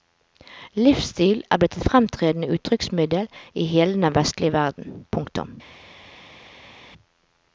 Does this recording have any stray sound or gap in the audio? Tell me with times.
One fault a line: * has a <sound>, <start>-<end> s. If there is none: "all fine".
all fine